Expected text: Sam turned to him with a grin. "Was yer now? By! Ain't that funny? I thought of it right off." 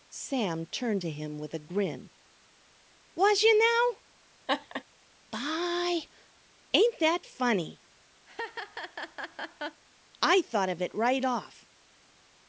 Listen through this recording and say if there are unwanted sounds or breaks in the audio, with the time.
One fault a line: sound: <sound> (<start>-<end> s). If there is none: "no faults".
sound: laugh (4.5-4.8 s)
sound: laugh (8.3-9.8 s)